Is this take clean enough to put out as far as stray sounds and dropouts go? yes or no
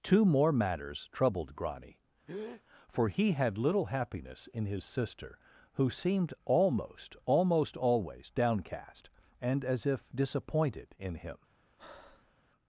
no